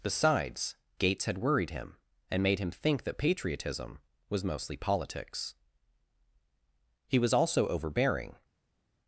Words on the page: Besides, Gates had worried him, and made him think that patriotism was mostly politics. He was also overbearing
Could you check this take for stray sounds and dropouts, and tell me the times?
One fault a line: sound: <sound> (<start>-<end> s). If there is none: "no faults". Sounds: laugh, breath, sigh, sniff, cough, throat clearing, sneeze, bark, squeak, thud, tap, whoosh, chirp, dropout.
no faults